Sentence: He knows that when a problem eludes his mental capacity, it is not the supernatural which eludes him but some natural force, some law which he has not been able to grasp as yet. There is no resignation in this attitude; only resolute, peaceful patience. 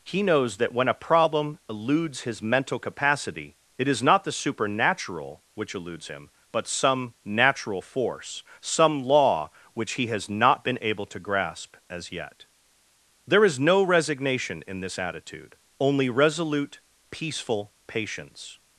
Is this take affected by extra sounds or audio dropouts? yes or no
no